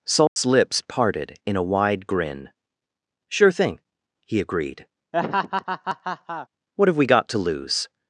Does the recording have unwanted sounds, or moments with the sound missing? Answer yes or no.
yes